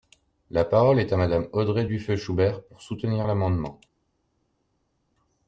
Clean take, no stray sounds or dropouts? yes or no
yes